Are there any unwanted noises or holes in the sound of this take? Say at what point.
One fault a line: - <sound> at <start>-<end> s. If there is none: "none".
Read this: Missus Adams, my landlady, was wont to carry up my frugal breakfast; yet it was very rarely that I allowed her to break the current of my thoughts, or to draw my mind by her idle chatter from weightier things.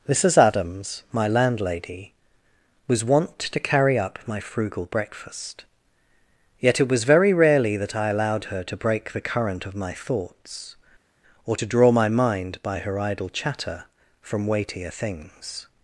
none